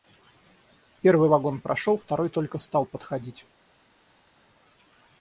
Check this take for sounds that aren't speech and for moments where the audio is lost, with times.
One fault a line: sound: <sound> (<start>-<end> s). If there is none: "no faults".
no faults